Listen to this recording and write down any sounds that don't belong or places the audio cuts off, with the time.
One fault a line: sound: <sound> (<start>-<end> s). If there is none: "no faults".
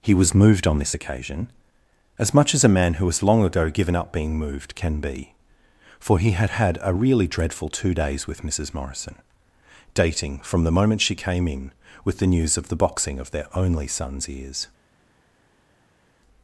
no faults